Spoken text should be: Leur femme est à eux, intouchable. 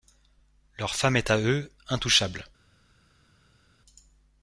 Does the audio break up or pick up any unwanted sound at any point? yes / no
no